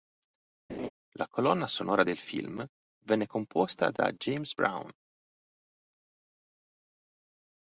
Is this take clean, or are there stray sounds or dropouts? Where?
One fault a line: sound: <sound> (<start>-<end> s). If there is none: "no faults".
sound: laugh (0.7-0.9 s)